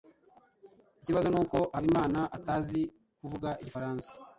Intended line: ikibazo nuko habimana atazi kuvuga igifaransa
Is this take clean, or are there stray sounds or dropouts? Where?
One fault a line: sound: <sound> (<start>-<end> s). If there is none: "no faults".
no faults